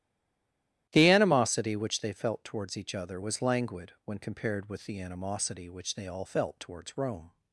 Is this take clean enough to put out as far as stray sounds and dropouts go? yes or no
yes